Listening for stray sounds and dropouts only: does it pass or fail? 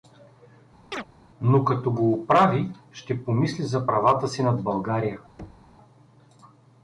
fail